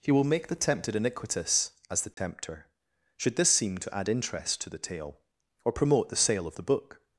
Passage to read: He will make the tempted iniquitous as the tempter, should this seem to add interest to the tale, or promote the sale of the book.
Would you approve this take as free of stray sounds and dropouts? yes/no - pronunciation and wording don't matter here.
no